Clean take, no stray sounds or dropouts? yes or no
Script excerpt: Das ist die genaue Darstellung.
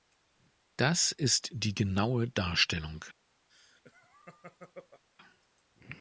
no